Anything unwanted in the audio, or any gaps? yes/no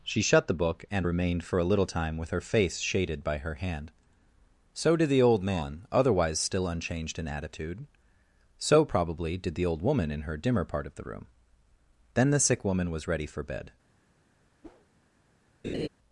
yes